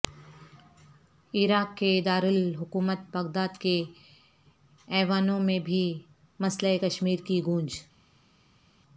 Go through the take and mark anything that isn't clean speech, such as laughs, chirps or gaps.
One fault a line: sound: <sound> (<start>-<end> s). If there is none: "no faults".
no faults